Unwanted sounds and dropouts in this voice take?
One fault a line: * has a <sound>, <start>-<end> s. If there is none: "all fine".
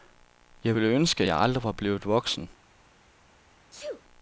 * has a sneeze, 3.7-4.0 s